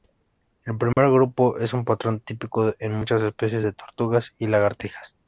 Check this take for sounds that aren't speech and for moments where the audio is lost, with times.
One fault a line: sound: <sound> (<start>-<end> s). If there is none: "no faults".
sound: dropout (0.9-1.0 s)